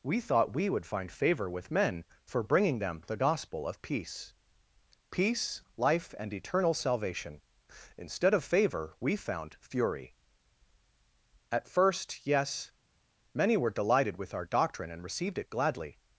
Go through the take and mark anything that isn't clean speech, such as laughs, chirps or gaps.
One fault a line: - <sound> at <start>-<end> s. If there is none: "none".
none